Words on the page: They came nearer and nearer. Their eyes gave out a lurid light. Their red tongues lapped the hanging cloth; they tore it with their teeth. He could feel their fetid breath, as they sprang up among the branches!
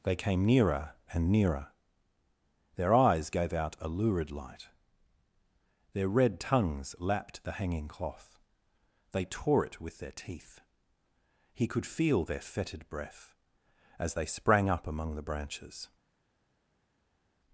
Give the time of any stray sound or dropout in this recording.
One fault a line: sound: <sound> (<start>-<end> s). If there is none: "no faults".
no faults